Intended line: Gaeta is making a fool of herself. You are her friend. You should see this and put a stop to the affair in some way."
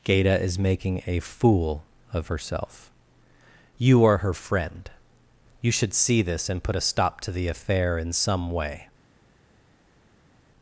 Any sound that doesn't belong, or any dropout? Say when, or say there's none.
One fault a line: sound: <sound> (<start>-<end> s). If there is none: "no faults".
no faults